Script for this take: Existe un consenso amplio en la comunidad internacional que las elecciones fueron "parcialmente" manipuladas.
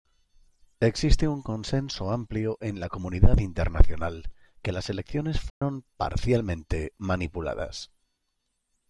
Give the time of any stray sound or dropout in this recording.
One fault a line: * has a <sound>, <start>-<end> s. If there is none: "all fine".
* has a dropout, 5.5-5.6 s